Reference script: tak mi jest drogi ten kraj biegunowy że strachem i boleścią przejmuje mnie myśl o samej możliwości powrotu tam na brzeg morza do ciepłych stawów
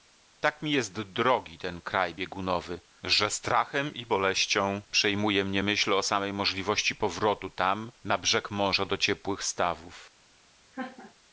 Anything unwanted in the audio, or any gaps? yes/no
yes